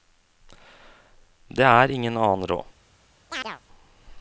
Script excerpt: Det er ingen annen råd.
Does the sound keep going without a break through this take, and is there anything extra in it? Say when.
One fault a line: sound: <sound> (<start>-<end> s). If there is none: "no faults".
sound: chirp (3.3-3.6 s)